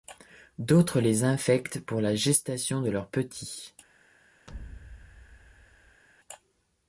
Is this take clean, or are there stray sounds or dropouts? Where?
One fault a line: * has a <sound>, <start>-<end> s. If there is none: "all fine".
* has a thud, 4.5-6.0 s